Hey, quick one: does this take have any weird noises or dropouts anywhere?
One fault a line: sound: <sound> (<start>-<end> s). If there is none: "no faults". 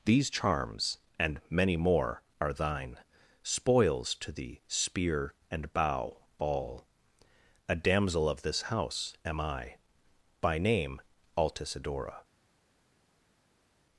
no faults